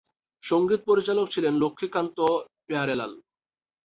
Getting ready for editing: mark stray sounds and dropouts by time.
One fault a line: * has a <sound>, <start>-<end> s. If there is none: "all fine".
all fine